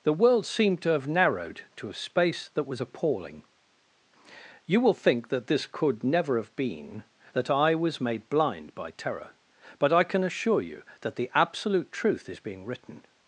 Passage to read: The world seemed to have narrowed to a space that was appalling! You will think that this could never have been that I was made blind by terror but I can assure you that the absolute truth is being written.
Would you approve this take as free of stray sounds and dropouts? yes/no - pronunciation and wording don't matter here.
yes